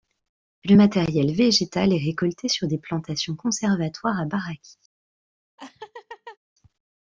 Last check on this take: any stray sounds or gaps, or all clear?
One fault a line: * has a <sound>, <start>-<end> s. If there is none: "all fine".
* has a laugh, 5.6-6.4 s